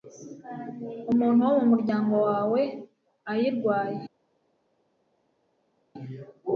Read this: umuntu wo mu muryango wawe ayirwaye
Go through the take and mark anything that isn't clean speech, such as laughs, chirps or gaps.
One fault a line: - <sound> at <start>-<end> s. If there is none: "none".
none